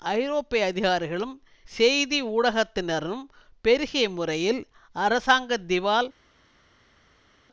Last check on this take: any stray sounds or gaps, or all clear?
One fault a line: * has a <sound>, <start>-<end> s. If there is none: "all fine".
all fine